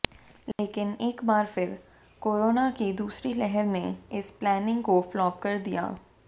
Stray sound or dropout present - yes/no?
yes